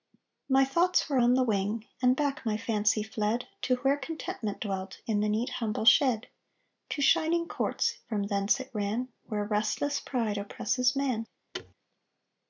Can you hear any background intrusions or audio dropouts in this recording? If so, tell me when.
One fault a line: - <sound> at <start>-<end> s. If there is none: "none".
- thud at 11.5-11.7 s